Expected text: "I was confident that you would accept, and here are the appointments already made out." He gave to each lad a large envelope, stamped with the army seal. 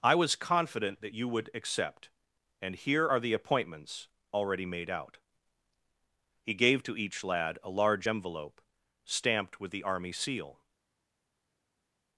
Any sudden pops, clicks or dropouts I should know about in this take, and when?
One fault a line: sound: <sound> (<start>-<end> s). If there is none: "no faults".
no faults